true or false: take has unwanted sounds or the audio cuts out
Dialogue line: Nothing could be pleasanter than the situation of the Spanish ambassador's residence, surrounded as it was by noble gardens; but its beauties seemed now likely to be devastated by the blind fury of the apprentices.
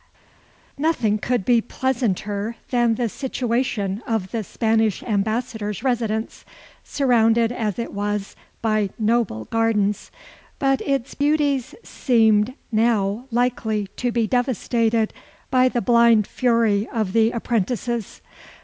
false